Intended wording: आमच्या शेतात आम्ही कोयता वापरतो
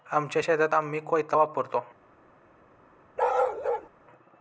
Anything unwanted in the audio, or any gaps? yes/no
yes